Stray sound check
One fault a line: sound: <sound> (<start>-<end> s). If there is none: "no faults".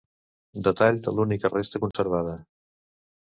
sound: dropout (1.9-1.9 s)